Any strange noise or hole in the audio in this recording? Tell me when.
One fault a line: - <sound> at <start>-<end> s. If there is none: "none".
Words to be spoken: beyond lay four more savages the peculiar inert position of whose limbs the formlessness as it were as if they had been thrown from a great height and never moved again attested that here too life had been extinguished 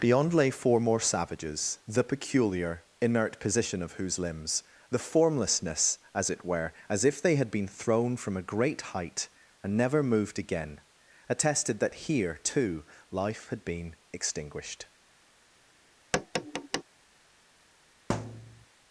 - tap at 16.1-16.8 s
- thud at 18.1-18.7 s